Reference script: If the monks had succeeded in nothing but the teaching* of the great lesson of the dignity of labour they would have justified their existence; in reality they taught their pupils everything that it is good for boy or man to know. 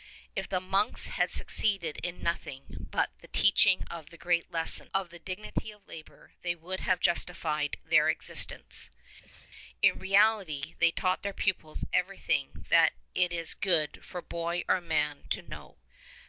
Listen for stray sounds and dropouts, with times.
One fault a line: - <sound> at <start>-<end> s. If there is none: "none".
- sneeze at 9.2-9.5 s